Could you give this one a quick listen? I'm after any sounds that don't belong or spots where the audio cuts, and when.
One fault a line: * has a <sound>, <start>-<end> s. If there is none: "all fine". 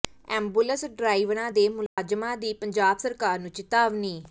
* has a dropout, 1.9-2.0 s